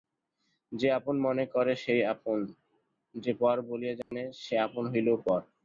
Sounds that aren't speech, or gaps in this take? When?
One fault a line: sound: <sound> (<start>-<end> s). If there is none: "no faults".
sound: dropout (4.0-4.1 s)